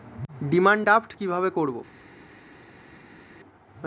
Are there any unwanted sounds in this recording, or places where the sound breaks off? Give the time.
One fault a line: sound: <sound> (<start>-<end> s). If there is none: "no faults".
no faults